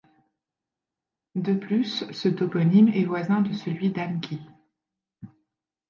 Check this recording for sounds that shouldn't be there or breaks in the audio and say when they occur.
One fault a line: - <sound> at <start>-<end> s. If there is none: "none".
none